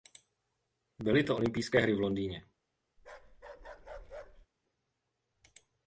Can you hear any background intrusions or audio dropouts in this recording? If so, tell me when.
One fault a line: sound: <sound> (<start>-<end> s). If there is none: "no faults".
sound: bark (3.0-4.5 s)